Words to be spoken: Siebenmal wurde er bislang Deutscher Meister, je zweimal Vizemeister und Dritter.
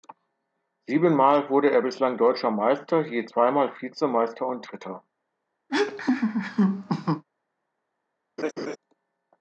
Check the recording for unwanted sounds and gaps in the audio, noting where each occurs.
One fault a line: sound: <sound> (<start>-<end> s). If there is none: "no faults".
sound: laugh (5.7-7.2 s)
sound: laugh (8.4-8.8 s)